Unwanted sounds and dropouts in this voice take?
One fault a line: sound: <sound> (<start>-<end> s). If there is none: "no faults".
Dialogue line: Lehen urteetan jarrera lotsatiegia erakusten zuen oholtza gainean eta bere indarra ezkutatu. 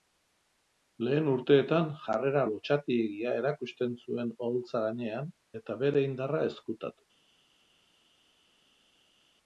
no faults